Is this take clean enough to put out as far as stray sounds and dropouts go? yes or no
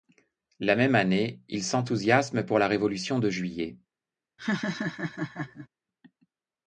no